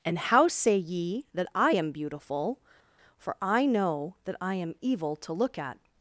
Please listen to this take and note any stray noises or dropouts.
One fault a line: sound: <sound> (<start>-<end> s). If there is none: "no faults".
no faults